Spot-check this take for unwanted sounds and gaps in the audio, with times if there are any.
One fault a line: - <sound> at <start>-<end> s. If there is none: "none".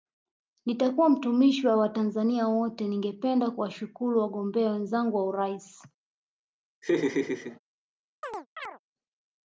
- laugh at 6.8-7.6 s
- chirp at 8.2-8.8 s